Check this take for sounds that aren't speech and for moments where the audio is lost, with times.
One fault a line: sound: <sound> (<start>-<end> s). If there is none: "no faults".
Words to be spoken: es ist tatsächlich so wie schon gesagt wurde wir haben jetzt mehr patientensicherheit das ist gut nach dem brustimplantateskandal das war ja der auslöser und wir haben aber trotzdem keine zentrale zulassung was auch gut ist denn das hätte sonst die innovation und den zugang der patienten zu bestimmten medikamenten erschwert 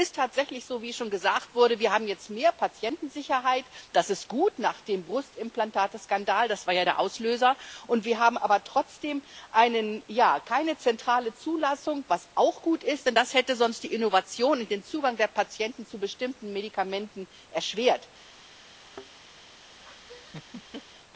sound: thud (18.8-19.1 s)
sound: laugh (19.8-20.8 s)